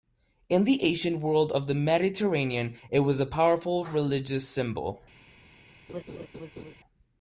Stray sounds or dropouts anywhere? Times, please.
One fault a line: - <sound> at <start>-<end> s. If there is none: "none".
- laugh at 5.9-6.7 s